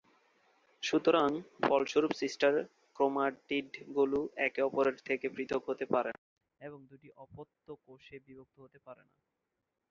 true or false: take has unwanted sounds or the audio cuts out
false